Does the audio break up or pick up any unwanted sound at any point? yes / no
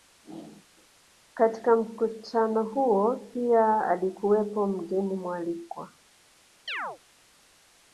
yes